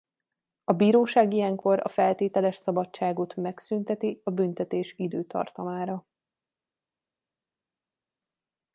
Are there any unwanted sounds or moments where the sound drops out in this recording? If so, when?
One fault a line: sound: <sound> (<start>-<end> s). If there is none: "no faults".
no faults